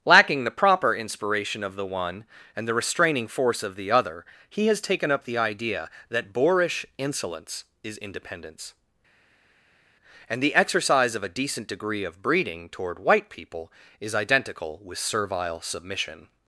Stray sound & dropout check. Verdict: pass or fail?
pass